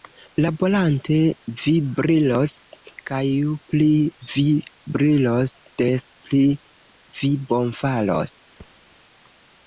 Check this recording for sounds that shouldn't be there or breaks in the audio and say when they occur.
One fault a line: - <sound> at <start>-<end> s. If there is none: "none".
- thud at 8.6-8.8 s